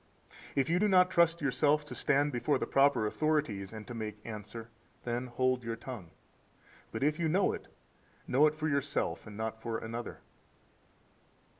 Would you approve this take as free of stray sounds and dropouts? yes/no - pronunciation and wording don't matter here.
yes